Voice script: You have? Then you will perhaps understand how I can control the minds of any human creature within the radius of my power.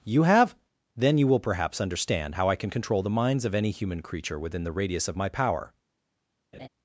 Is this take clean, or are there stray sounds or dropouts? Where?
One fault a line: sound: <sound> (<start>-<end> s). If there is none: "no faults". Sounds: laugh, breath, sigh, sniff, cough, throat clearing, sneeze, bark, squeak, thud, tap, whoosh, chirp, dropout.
sound: laugh (6.5-6.7 s)